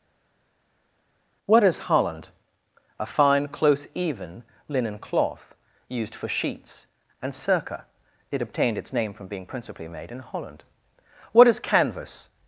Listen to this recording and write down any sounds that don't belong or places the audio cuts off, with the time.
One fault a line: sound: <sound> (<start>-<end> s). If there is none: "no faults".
no faults